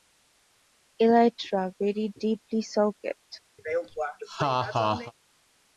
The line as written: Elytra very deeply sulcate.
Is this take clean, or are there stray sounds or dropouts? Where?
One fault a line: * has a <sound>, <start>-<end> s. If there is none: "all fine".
* has a laugh, 3.6-5.1 s